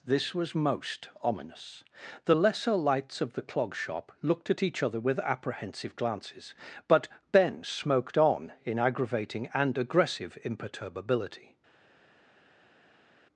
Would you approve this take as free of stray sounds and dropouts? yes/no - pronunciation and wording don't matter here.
yes